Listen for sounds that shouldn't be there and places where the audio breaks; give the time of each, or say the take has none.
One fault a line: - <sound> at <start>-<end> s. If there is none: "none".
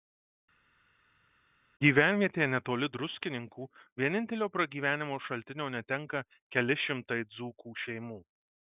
none